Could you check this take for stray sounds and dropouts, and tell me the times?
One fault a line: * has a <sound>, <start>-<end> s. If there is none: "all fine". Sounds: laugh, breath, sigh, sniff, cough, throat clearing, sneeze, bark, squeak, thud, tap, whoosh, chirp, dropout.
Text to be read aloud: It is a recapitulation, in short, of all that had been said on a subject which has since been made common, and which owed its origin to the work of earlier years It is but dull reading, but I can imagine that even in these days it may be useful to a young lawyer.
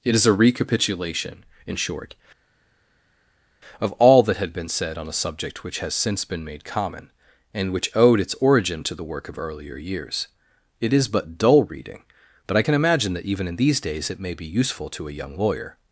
all fine